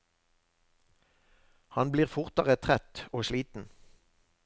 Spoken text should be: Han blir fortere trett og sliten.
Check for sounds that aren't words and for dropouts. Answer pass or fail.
pass